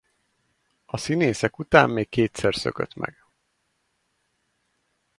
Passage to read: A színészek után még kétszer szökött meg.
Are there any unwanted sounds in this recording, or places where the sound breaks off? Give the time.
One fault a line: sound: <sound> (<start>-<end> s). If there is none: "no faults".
no faults